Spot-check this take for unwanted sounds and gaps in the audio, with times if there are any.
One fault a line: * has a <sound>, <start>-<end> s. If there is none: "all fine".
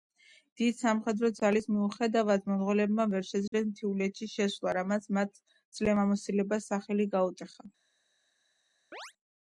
* has a dropout, 3.5-3.5 s
* has a chirp, 8.9-9.1 s